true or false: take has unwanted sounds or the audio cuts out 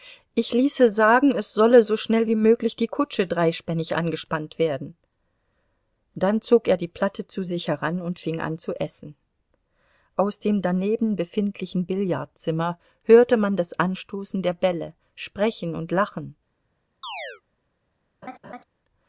true